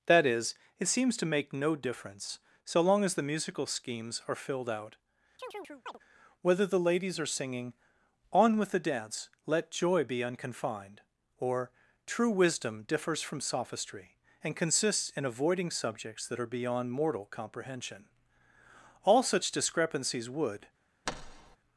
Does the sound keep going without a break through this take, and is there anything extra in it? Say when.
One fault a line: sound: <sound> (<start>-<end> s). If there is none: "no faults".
sound: chirp (5.4-6.0 s)
sound: thud (21.1-21.6 s)